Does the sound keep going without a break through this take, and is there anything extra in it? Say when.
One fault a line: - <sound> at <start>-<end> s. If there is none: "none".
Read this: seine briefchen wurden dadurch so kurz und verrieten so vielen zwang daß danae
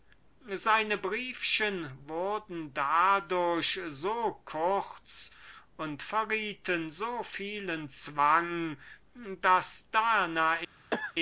- cough at 10.9-11.1 s